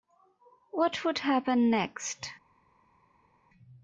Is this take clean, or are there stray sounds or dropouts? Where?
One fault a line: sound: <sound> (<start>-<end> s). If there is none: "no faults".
no faults